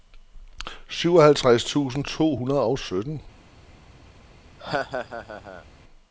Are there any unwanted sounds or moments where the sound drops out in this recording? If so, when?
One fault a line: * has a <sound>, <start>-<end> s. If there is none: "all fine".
* has a laugh, 4.6-5.6 s